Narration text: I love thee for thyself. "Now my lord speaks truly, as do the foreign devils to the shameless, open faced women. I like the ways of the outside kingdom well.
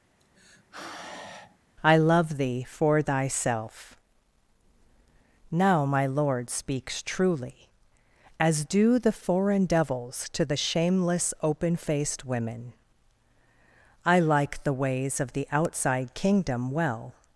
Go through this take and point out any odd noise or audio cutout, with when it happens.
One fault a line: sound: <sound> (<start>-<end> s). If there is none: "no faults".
sound: sigh (0.2-1.6 s)